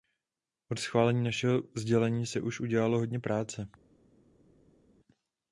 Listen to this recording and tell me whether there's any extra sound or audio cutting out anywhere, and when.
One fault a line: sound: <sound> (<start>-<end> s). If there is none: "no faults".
no faults